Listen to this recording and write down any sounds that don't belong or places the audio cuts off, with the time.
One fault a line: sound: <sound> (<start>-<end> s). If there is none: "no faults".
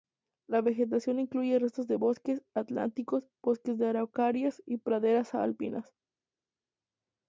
no faults